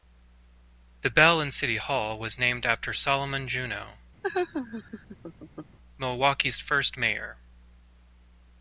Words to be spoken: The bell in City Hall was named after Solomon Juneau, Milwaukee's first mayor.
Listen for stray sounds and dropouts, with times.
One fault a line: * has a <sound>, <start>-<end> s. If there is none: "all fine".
* has a laugh, 4.2-5.8 s